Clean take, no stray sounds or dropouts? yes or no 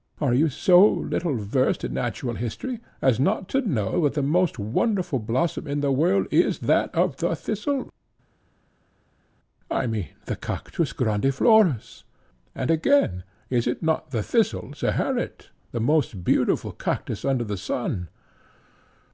yes